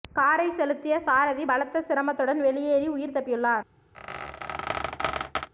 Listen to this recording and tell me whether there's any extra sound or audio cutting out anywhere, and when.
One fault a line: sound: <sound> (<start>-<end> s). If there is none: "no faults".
sound: squeak (3.9-5.5 s)